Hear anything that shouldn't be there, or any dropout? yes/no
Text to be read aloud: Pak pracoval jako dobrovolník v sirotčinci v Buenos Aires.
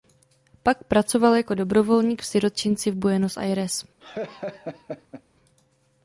yes